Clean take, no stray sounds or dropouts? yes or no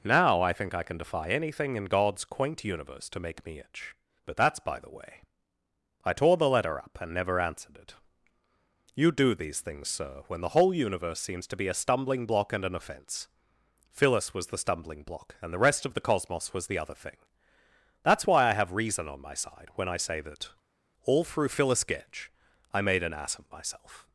yes